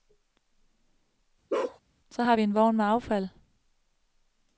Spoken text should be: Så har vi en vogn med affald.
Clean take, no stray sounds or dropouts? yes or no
no